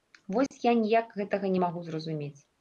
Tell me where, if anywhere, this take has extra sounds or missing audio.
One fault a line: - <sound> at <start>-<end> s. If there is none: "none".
- dropout at 0.5-0.5 s